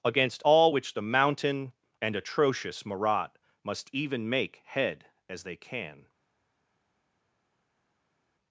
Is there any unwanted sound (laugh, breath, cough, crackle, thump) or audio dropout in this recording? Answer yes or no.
no